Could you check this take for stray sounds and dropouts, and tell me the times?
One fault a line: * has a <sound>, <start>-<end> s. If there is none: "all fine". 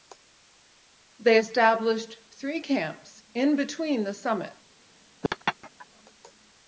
* has a laugh, 5.2-5.9 s